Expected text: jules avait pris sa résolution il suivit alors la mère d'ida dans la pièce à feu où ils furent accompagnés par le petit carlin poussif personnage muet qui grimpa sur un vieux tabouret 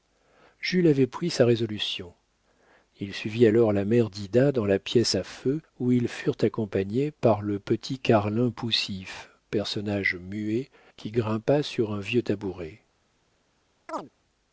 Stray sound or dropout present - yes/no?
yes